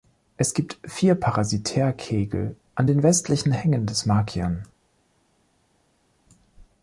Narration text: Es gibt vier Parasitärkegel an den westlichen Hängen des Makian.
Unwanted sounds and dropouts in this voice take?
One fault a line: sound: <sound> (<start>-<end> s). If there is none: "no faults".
no faults